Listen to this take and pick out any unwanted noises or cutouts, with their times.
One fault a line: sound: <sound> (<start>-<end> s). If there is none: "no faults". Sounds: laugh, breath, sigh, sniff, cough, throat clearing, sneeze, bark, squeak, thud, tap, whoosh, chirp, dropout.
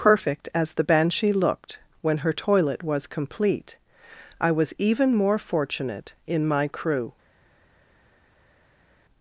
no faults